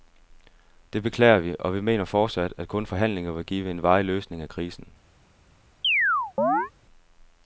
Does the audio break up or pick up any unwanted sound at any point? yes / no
yes